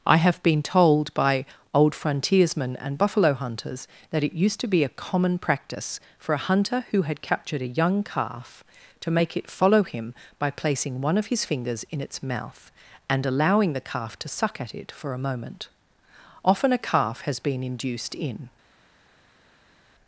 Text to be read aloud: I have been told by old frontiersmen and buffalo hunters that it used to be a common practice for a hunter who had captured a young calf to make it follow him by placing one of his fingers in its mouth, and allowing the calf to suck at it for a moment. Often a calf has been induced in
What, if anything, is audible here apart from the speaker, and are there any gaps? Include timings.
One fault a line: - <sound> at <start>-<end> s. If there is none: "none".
none